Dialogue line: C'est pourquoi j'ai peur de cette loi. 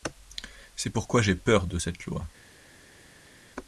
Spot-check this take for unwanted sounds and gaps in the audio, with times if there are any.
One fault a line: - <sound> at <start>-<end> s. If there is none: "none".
none